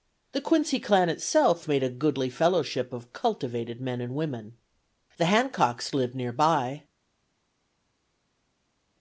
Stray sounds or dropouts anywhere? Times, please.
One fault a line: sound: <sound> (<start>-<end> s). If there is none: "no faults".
no faults